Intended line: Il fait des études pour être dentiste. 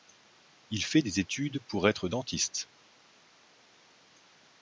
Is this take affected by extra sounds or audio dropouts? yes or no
no